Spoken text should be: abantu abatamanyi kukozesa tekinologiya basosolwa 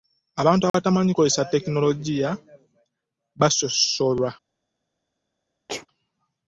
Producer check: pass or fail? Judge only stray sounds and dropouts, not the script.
fail